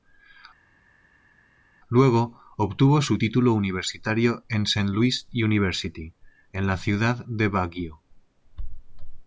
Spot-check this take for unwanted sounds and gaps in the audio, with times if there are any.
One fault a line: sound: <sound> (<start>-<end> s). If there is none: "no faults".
no faults